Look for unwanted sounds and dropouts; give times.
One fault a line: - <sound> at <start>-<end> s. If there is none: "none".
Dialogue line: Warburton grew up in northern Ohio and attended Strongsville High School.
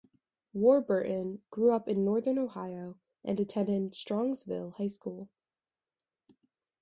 none